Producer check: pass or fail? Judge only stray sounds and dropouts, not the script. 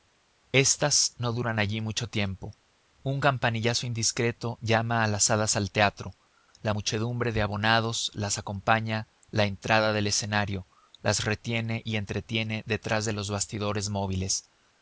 pass